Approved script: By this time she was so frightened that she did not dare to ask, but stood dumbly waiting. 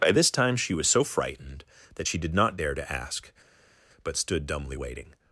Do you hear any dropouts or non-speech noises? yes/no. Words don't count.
no